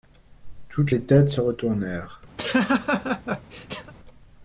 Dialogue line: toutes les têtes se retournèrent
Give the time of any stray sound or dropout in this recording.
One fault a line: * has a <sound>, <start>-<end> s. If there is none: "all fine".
* has a laugh, 2.4-3.9 s